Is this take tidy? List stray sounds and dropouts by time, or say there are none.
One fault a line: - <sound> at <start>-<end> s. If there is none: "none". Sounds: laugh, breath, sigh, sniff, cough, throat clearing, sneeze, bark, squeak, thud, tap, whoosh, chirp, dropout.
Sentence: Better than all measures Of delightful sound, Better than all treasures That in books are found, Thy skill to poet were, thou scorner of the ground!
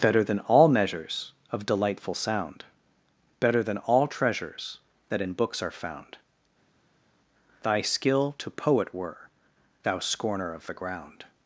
none